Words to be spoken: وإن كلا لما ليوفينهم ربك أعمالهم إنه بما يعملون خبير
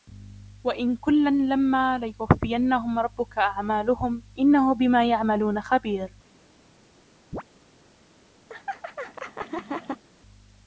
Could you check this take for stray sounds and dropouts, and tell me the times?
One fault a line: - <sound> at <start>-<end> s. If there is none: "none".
- chirp at 7.3-7.4 s
- laugh at 8.5-10.0 s